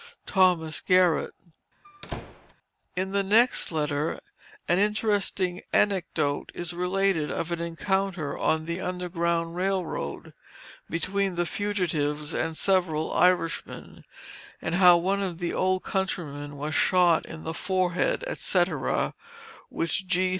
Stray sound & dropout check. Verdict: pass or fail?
fail